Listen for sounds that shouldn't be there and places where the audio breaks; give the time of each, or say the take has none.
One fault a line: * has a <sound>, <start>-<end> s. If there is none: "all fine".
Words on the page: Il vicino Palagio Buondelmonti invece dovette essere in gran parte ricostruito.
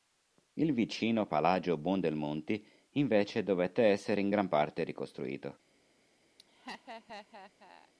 * has a laugh, 6.4-7.9 s